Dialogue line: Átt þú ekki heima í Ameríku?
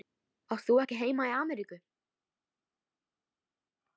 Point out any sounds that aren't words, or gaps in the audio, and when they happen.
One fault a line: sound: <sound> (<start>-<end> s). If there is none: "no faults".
no faults